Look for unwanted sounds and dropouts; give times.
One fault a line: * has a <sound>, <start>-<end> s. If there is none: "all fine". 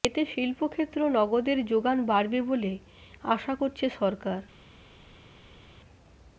all fine